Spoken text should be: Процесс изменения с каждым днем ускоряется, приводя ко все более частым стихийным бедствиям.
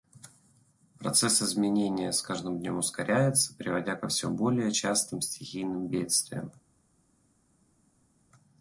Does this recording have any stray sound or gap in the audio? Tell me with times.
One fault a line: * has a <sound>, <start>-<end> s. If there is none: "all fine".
all fine